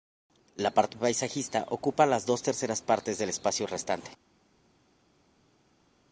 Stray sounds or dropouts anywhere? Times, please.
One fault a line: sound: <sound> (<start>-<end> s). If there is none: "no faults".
no faults